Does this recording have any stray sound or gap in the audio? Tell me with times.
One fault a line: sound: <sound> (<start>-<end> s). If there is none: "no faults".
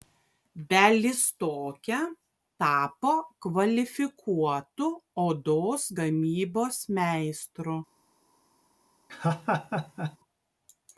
sound: laugh (9.1-10.2 s)